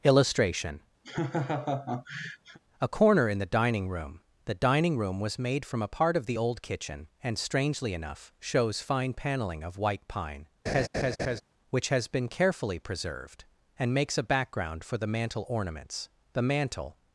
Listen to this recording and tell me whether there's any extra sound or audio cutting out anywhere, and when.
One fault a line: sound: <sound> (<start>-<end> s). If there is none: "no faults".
sound: laugh (1.0-2.6 s)
sound: laugh (10.7-11.4 s)